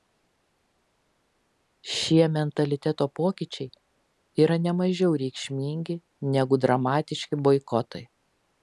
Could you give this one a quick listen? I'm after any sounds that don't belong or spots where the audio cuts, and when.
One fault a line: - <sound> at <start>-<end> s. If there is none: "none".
none